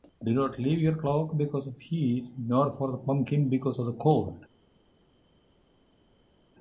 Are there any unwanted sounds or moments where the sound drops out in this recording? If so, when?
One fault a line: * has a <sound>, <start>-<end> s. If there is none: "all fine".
all fine